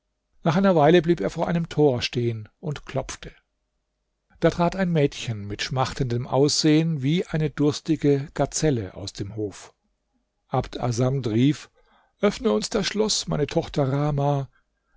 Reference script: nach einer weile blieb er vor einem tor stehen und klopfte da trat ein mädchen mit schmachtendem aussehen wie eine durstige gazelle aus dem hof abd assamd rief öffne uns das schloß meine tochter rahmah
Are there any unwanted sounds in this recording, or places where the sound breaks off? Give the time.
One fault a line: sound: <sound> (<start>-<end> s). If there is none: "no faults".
no faults